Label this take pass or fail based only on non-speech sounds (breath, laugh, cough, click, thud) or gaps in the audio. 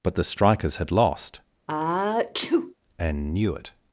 fail